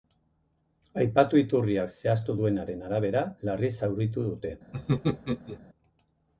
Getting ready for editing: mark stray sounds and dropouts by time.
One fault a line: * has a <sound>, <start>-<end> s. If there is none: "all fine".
* has a laugh, 4.7-5.6 s